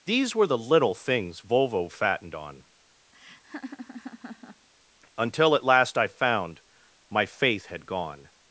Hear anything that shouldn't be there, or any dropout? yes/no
yes